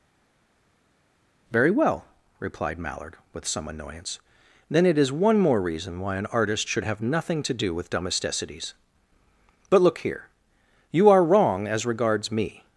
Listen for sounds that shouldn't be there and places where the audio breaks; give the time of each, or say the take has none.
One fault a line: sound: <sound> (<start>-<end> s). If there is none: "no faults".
no faults